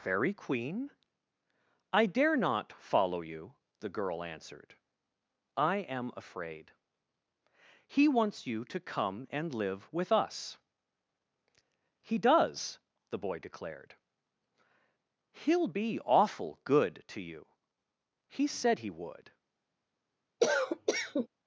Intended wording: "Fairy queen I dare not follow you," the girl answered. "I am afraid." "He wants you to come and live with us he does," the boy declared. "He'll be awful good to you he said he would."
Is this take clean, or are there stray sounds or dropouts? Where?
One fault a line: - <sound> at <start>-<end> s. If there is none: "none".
- cough at 20.4-21.3 s